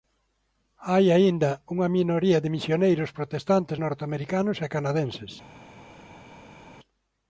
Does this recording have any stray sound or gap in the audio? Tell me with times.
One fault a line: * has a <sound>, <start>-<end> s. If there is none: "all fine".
all fine